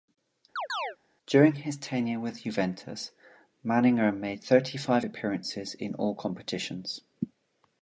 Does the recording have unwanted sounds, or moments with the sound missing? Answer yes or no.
yes